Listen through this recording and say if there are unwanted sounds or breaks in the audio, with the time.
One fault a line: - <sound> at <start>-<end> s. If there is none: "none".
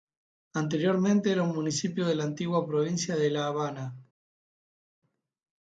none